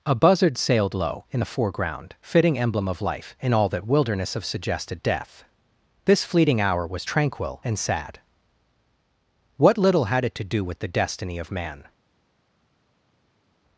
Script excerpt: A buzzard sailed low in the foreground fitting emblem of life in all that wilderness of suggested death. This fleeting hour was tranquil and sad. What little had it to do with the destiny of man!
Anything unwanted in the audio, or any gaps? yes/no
no